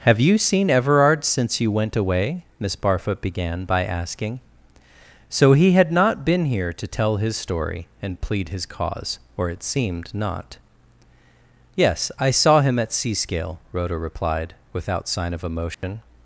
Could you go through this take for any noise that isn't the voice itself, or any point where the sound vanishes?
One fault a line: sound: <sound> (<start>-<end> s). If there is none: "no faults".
sound: dropout (15.7-15.8 s)